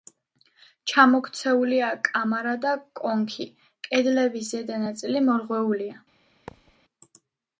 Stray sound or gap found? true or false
true